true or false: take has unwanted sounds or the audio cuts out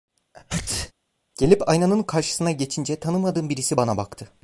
true